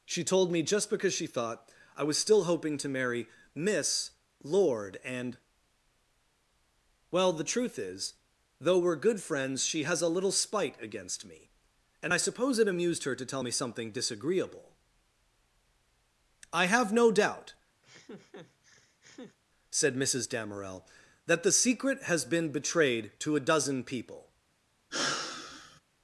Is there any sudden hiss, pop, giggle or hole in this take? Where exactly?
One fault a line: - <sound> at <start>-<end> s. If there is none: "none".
- laugh at 17.8-19.4 s
- sigh at 24.9-25.8 s